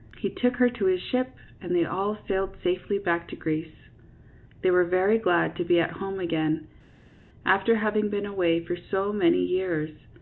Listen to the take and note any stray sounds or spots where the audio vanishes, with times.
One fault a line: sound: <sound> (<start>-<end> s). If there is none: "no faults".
no faults